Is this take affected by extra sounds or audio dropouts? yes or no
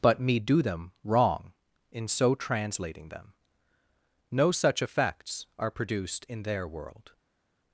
no